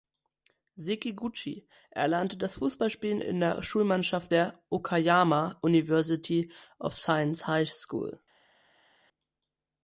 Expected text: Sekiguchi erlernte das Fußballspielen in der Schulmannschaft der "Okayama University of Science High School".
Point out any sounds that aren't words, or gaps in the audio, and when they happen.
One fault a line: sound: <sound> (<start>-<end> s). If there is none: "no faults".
no faults